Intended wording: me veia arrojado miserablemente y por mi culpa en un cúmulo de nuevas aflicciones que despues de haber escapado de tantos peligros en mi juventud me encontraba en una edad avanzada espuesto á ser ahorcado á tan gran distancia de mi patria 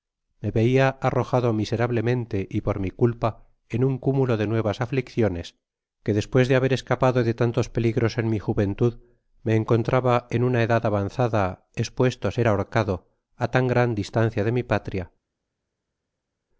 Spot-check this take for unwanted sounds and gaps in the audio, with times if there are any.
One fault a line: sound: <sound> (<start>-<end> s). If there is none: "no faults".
no faults